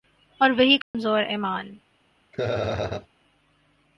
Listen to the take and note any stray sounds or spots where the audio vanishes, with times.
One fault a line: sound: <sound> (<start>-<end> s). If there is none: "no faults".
sound: dropout (0.8-0.9 s)
sound: laugh (2.3-3.1 s)